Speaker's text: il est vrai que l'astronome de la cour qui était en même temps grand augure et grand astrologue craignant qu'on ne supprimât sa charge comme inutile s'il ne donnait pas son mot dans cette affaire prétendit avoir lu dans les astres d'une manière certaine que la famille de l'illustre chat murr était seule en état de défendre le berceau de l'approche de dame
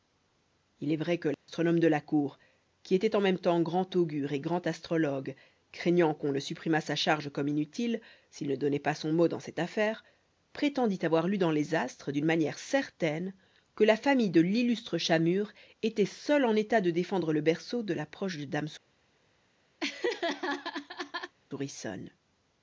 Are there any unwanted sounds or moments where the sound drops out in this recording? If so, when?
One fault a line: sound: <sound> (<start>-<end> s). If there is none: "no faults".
sound: dropout (1.3-1.5 s)
sound: laugh (19.8-21.3 s)